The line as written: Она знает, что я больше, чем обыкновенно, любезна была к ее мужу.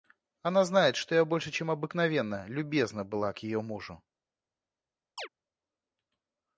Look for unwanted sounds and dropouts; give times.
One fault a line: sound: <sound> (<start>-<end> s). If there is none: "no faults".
sound: chirp (5.2-5.3 s)